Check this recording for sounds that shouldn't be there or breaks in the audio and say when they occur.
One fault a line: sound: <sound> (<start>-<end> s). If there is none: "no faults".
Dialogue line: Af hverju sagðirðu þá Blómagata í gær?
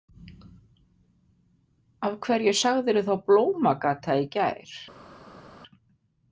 no faults